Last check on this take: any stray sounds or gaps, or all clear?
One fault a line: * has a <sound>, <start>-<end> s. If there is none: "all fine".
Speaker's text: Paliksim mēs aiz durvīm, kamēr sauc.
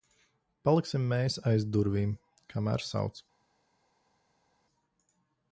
all fine